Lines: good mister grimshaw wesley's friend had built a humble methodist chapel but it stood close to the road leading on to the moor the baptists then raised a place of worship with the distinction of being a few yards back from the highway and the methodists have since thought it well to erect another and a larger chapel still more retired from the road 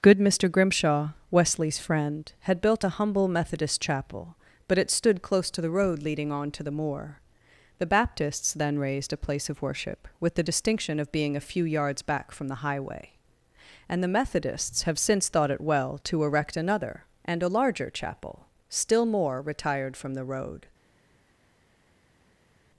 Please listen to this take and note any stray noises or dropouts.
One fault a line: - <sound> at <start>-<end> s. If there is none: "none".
none